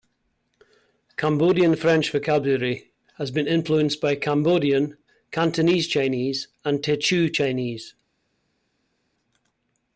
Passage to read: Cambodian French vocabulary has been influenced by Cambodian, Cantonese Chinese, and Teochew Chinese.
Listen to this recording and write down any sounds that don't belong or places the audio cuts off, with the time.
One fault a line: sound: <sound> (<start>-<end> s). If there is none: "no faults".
no faults